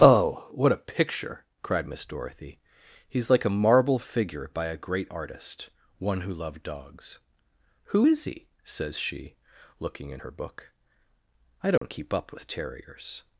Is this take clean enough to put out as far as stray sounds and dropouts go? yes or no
no